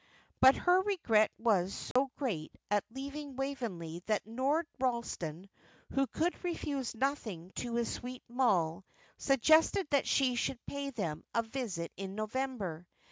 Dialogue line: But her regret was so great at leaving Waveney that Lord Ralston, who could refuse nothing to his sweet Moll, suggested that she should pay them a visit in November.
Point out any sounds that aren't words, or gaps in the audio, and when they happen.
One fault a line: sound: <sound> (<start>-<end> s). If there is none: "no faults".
sound: dropout (1.9-2.0 s)